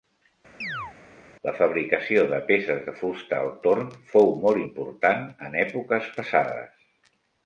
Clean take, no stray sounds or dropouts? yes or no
no